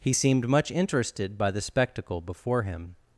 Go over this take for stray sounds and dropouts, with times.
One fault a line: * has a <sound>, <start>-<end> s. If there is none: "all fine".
all fine